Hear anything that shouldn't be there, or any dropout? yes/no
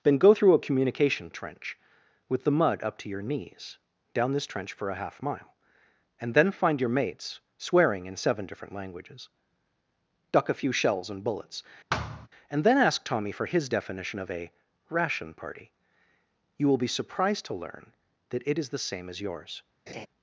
yes